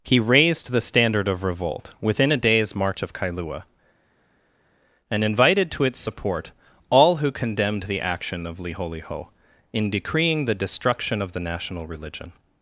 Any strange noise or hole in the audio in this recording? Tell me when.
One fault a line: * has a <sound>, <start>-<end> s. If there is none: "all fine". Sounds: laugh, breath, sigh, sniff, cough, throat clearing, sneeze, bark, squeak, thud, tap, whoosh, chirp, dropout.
all fine